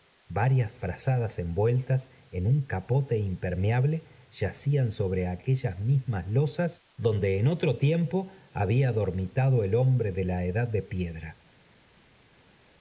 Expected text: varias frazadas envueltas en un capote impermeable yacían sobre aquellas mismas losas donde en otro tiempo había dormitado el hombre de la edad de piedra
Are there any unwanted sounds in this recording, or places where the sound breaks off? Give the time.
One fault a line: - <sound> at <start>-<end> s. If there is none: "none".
none